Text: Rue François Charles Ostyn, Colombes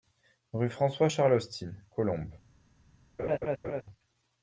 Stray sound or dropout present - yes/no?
yes